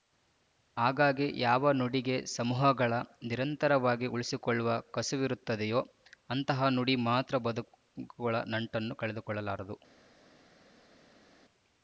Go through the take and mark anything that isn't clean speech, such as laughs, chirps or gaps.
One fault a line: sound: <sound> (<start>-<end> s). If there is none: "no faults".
no faults